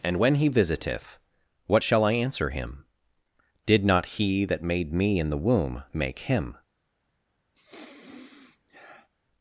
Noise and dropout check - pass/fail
fail